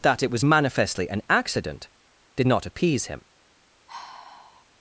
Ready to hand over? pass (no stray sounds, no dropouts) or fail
fail